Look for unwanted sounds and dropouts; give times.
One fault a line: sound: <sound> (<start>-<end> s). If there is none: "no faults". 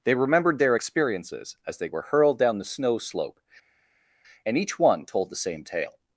no faults